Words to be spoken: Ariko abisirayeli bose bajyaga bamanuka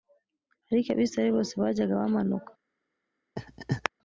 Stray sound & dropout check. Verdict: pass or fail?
fail